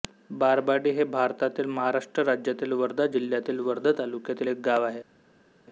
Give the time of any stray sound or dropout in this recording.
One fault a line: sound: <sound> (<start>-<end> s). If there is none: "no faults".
no faults